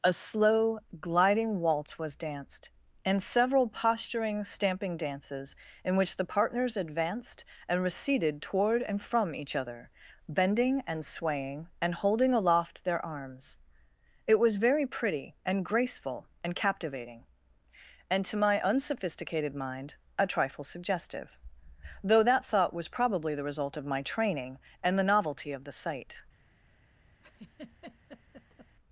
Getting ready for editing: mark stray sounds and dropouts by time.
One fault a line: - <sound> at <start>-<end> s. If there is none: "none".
- laugh at 27.2-28.8 s